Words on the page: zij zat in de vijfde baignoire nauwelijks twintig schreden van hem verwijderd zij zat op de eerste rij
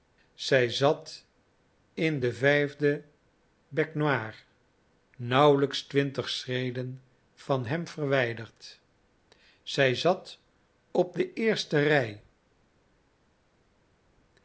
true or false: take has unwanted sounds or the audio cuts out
false